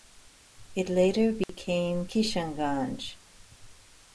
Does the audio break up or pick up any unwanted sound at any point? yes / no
yes